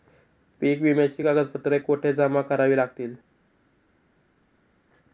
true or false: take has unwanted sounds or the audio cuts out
false